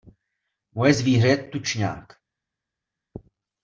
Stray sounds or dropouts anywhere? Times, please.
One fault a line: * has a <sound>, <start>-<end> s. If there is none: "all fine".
all fine